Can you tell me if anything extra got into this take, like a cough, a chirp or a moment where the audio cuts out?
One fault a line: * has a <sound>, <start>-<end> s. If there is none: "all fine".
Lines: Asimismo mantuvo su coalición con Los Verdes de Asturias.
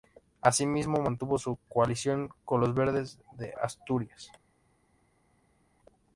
all fine